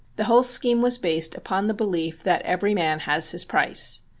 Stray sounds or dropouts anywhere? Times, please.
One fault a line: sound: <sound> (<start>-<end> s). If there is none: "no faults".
no faults